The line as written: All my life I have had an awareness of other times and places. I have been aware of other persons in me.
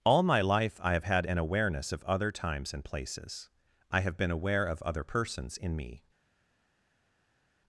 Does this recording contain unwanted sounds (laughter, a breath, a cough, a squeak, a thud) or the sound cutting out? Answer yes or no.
no